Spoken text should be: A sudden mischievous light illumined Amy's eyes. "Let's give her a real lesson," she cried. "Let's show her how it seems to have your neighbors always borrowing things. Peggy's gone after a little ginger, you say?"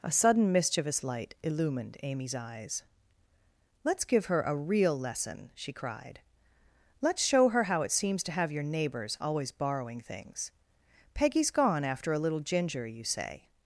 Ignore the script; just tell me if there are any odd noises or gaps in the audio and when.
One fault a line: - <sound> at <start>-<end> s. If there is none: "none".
none